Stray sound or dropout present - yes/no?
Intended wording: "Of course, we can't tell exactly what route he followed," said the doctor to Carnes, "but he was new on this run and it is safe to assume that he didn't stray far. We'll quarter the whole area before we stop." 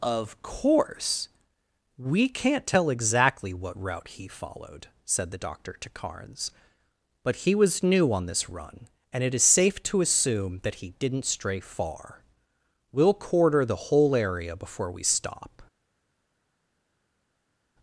no